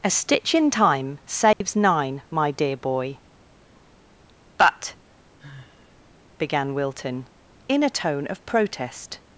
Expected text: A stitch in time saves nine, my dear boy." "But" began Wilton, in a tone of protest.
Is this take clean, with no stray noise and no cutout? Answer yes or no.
no